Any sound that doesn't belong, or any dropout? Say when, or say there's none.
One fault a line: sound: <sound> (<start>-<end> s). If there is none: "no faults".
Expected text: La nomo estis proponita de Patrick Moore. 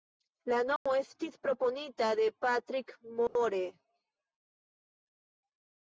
sound: dropout (0.8-0.9 s)
sound: dropout (3.3-3.4 s)